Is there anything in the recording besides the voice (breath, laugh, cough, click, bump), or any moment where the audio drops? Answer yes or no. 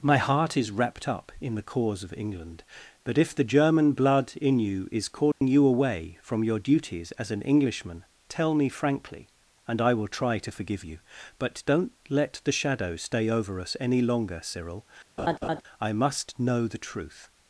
yes